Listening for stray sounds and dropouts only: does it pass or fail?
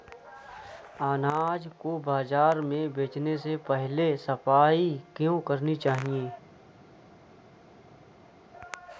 pass